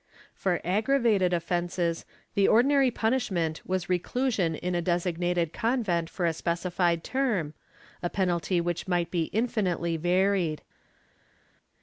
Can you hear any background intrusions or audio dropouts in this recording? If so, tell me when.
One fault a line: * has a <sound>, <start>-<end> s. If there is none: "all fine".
all fine